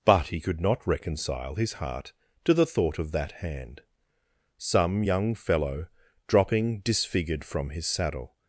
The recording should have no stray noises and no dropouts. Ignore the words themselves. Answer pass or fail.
pass